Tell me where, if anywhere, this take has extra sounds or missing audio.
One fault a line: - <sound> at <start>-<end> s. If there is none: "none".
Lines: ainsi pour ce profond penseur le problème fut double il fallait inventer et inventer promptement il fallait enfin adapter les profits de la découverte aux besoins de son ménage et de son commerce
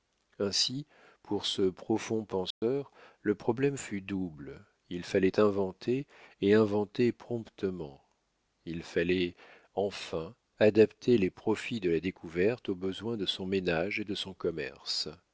- dropout at 2.5-2.6 s